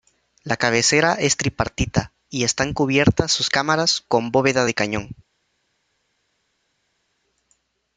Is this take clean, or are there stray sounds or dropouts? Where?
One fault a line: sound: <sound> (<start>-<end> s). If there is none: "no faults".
no faults